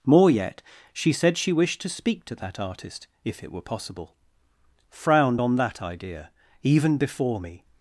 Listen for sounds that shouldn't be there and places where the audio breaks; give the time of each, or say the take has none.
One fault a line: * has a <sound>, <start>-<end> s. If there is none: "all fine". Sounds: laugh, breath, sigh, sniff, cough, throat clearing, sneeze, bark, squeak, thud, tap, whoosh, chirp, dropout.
all fine